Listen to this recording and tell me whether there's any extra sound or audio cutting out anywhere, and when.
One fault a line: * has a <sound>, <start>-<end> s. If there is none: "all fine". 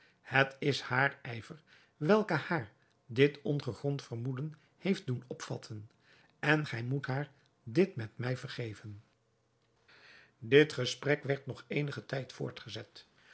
all fine